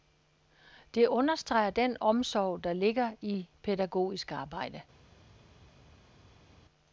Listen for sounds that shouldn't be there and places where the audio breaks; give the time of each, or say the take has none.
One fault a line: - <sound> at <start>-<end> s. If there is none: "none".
none